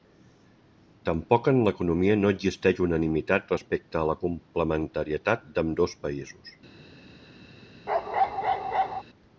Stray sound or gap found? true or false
true